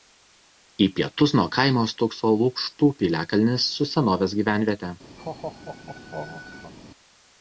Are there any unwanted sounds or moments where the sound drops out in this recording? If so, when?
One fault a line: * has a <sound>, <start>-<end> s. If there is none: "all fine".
* has a laugh, 5.2-6.7 s